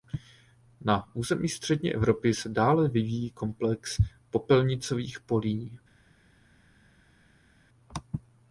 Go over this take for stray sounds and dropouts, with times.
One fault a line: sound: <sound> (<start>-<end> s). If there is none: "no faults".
no faults